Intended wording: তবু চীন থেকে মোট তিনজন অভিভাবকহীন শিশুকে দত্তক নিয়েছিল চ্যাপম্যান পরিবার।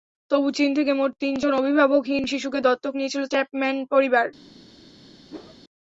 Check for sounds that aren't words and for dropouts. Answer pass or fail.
fail